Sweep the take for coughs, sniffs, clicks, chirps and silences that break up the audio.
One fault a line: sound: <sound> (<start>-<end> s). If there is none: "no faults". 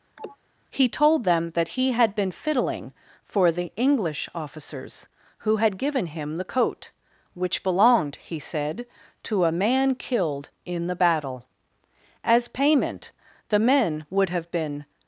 sound: sniff (0.2-0.4 s)